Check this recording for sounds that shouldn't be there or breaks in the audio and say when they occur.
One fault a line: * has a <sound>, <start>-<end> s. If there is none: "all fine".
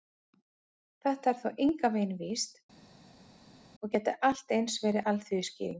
all fine